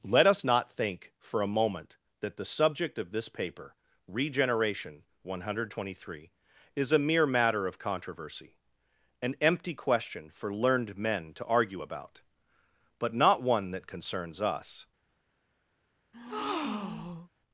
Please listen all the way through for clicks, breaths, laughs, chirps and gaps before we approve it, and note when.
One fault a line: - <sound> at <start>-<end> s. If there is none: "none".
- breath at 16.1-17.3 s